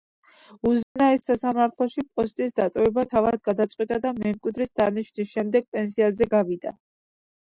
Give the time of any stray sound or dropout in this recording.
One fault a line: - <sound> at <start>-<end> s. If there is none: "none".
- dropout at 0.8-1.0 s